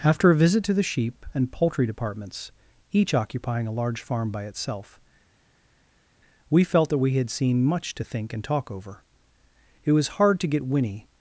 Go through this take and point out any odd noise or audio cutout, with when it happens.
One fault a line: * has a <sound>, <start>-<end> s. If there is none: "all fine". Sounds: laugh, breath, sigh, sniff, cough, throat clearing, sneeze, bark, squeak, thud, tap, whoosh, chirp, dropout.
all fine